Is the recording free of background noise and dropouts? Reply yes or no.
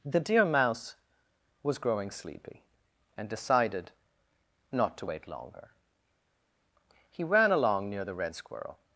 yes